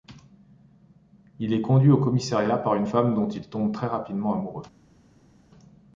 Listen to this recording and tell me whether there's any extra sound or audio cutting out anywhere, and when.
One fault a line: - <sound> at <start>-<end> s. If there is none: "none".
none